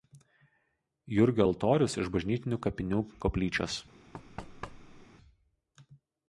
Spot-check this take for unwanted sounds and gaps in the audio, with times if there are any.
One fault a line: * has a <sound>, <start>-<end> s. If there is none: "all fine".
* has a thud, 4.1-5.1 s